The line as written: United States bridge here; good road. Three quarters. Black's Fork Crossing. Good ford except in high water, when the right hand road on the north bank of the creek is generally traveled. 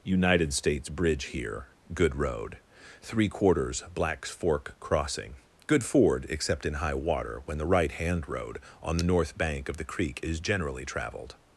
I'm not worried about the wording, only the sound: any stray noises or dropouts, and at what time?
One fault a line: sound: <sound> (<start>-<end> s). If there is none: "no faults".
no faults